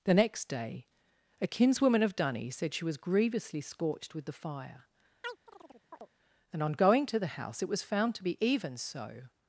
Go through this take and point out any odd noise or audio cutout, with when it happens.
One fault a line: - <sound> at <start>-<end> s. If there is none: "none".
- chirp at 5.2-6.1 s